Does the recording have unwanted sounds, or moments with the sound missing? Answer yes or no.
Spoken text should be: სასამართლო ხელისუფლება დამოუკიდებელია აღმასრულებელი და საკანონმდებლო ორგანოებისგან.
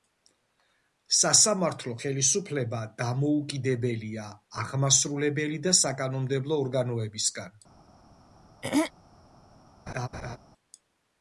yes